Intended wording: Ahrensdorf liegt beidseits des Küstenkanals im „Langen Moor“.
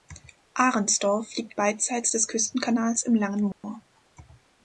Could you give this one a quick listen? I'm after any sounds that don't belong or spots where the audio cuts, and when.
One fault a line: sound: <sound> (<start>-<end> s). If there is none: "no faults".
sound: dropout (3.5-3.6 s)